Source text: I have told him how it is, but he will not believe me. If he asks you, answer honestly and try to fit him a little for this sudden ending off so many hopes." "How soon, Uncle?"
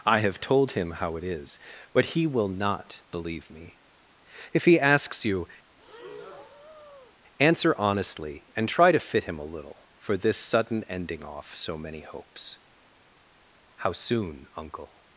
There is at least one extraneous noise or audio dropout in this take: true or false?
true